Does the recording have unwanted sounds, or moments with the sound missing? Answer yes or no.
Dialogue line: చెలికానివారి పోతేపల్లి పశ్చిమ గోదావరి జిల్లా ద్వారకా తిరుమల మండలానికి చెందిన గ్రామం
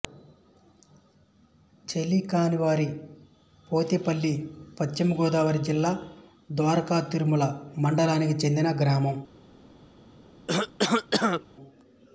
yes